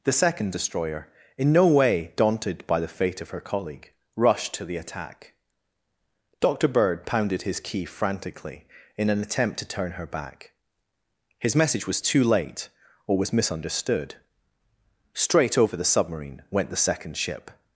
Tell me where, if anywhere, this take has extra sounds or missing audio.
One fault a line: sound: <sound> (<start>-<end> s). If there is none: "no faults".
no faults